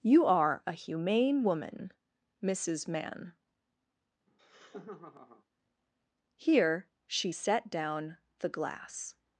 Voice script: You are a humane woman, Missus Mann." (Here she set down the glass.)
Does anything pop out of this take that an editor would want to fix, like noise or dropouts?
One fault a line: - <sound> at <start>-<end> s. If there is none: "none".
- laugh at 4.3-5.4 s